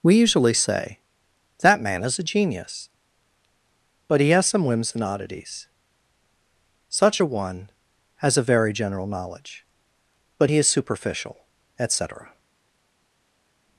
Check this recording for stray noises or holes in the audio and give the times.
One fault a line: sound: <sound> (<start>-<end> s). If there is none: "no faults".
no faults